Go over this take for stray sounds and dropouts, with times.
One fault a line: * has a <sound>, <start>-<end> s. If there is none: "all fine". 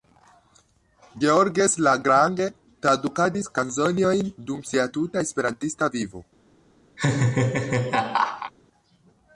* has a laugh, 7.0-8.5 s